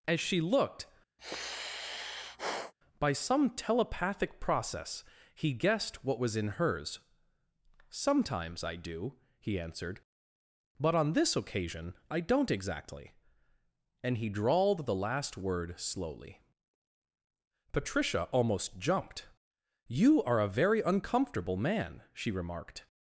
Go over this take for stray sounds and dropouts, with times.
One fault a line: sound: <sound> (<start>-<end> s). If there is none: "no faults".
sound: sigh (1.2-2.7 s)